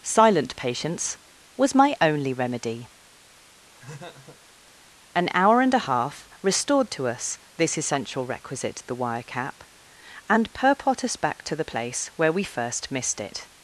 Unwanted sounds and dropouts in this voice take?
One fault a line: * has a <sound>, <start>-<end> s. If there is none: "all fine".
* has a laugh, 3.7-4.4 s